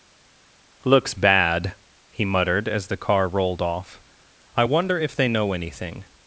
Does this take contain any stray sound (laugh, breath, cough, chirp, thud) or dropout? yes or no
no